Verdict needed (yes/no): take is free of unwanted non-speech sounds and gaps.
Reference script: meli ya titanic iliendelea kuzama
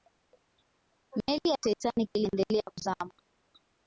yes